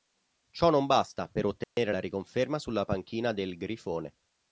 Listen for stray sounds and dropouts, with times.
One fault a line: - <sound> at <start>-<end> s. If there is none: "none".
- dropout at 1.6-1.8 s